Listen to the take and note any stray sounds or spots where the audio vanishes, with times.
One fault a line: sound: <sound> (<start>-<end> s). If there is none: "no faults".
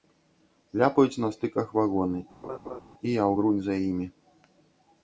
sound: laugh (2.4-2.8 s)